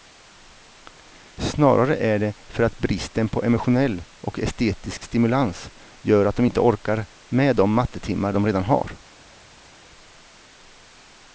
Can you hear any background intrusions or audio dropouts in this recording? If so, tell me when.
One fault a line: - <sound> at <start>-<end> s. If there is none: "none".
none